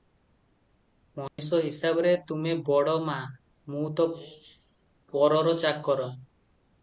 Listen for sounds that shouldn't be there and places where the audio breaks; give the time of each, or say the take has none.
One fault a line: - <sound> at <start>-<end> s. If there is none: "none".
- dropout at 1.3-1.4 s